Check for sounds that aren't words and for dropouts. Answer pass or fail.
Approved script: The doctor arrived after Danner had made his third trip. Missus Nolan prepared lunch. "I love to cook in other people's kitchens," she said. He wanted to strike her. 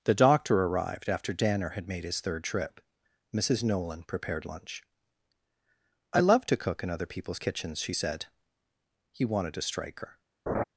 fail